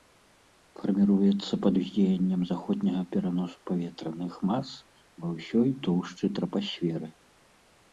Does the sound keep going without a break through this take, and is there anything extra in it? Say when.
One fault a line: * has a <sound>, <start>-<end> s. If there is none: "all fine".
all fine